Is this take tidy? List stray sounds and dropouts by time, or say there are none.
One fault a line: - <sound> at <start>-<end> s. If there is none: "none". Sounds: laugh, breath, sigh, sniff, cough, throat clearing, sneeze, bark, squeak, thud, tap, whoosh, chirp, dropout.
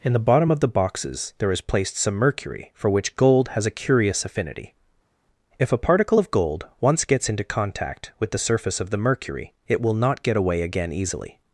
none